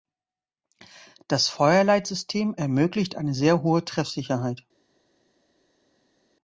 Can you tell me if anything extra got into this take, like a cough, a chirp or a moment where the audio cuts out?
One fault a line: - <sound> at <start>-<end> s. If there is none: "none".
none